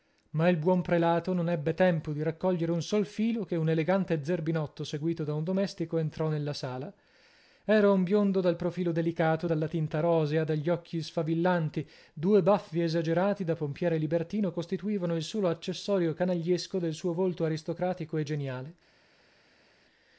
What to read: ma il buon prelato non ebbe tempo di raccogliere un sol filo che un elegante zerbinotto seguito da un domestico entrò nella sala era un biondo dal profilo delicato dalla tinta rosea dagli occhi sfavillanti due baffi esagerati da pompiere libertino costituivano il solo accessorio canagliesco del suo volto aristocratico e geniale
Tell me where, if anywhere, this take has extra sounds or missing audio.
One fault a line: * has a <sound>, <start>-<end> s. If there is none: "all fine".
all fine